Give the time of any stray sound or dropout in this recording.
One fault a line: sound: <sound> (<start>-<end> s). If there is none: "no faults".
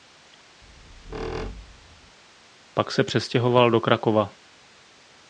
sound: squeak (0.6-2.2 s)